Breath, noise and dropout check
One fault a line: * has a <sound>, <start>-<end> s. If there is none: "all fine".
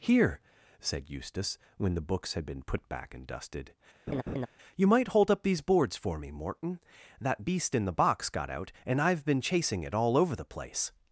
* has a laugh, 4.1-4.5 s